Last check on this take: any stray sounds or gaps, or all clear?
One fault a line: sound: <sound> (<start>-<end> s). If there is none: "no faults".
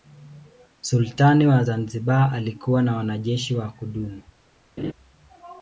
sound: laugh (4.8-4.9 s)